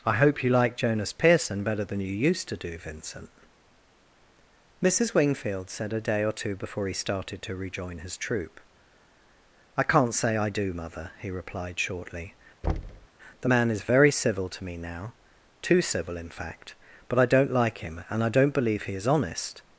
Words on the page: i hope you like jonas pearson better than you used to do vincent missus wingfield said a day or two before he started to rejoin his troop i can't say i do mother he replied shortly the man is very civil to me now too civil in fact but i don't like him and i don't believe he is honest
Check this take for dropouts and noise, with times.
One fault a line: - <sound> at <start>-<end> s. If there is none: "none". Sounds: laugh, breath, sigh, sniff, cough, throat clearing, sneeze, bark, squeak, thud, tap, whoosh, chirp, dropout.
- thud at 12.6-13.1 s